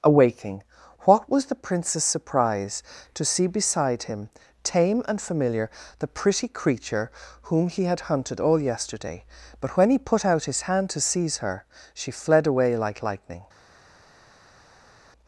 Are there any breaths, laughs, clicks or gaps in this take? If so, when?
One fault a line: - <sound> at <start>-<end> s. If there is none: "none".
none